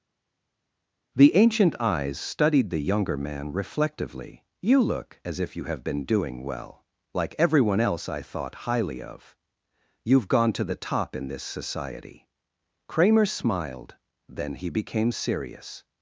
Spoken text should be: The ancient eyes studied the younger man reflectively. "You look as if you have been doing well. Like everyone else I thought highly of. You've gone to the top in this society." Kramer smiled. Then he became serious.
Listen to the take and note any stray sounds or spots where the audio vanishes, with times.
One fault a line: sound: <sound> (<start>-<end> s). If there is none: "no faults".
no faults